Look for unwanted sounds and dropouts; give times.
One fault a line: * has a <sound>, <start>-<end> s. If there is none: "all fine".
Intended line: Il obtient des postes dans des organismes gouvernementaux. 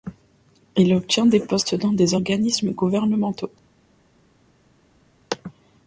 all fine